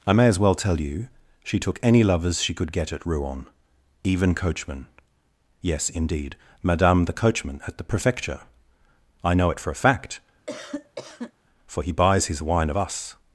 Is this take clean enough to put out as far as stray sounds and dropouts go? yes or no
no